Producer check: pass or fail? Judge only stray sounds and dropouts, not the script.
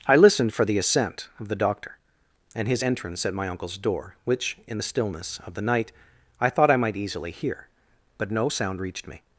pass